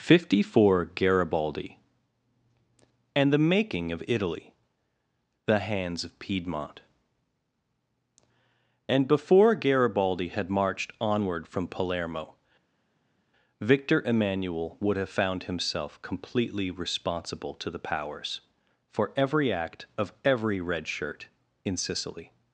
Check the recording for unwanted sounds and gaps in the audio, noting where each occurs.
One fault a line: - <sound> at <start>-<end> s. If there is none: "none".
none